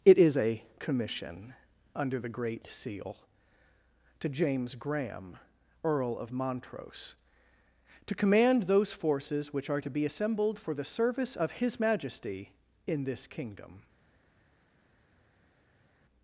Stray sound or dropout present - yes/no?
no